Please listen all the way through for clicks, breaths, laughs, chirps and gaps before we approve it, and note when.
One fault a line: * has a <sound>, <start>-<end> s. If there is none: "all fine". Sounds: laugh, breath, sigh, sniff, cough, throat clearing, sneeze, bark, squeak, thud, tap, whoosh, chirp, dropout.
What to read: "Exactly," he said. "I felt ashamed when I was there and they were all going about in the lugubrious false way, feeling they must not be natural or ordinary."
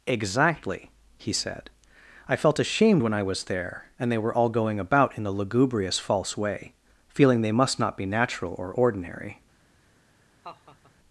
* has a laugh, 10.4-10.9 s